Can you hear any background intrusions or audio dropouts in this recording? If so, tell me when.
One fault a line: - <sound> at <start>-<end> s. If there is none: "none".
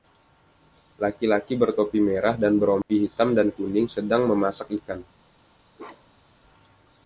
- dropout at 2.8-2.9 s
- bark at 5.8-6.4 s